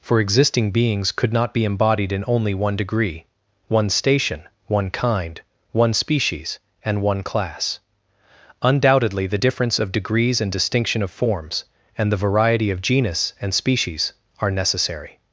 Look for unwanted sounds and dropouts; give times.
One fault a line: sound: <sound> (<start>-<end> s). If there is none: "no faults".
no faults